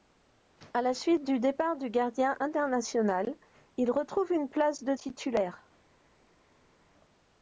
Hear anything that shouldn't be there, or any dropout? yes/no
no